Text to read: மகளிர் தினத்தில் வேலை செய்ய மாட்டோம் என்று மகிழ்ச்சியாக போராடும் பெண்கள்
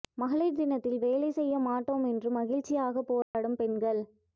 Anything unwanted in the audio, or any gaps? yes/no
yes